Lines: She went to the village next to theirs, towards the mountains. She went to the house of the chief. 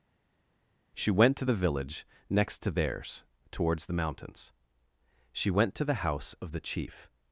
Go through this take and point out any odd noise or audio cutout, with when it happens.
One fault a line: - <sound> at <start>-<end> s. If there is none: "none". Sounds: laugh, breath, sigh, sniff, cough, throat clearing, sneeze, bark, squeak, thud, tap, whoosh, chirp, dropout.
none